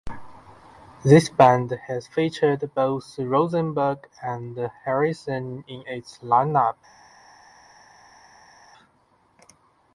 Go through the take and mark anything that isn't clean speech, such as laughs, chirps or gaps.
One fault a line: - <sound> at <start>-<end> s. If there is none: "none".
none